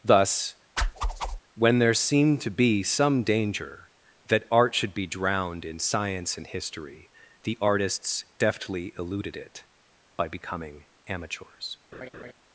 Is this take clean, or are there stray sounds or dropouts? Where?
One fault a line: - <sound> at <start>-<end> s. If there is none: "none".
- whoosh at 0.8-1.4 s
- laugh at 11.9-12.3 s